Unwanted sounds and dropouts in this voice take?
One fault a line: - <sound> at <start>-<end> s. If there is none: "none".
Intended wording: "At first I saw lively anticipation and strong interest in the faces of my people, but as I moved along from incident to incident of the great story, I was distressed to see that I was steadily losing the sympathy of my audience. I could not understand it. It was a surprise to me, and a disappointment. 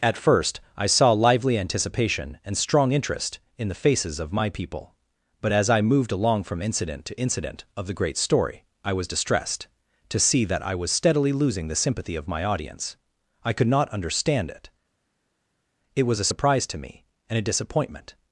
none